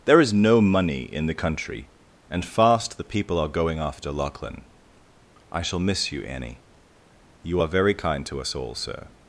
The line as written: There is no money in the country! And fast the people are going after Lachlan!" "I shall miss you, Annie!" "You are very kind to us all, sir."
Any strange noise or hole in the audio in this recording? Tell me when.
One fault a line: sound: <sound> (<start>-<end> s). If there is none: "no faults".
no faults